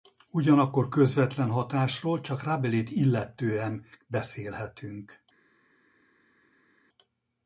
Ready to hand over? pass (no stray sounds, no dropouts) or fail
pass